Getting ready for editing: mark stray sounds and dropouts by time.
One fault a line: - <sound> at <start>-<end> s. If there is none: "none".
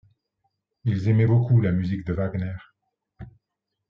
none